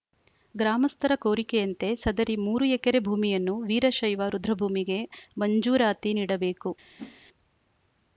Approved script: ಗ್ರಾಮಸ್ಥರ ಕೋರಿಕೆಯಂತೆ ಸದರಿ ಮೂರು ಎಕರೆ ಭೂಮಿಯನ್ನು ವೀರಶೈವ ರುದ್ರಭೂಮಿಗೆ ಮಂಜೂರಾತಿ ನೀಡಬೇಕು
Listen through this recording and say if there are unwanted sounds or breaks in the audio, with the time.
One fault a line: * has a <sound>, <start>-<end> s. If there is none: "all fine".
* has a whoosh, 7.0-7.2 s